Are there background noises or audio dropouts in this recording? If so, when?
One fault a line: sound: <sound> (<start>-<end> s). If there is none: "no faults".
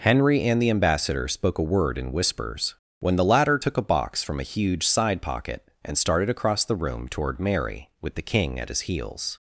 no faults